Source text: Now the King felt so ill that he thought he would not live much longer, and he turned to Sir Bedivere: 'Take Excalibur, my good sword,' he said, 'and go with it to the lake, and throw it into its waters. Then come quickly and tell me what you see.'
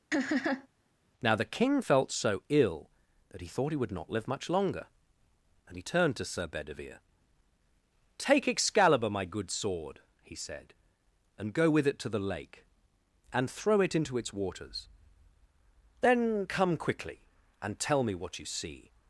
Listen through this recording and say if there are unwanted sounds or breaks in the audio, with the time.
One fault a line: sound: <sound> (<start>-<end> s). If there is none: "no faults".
sound: laugh (0.1-0.7 s)